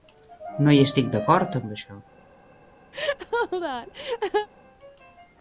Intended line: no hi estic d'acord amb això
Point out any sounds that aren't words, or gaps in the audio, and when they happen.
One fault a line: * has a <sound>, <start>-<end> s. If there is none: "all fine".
* has a laugh, 2.9-4.5 s